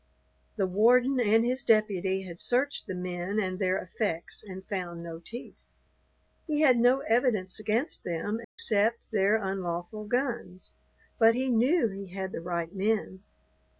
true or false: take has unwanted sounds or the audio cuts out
true